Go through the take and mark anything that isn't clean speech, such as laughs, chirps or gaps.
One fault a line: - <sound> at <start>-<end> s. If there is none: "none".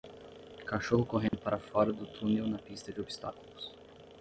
- dropout at 1.3-1.3 s